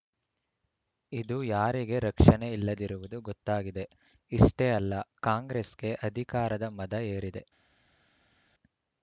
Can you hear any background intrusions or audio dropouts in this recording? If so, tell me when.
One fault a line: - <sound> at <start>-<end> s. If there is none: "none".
none